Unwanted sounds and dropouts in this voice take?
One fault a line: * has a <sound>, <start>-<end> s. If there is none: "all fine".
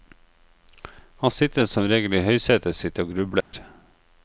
* has a dropout, 3.4-3.5 s